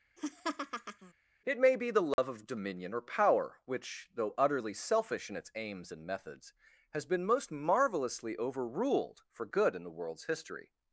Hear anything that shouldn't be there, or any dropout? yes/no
yes